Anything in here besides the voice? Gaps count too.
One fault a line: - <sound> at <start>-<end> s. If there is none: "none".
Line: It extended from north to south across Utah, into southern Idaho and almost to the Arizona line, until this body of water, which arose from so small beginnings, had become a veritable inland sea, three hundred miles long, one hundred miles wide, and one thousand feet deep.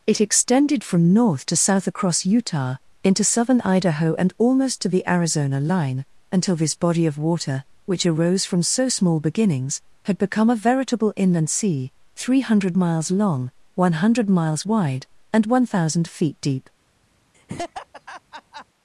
- laugh at 17.3-18.7 s